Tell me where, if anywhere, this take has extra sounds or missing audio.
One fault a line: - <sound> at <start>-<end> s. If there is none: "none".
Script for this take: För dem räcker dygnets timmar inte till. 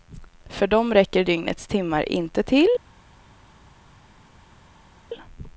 none